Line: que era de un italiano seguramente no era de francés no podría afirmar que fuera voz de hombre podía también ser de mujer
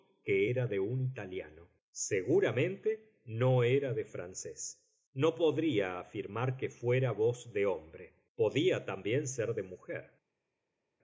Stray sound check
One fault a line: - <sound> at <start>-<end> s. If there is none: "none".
none